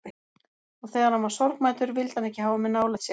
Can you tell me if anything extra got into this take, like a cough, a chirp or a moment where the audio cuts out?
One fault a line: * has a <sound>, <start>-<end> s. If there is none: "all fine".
all fine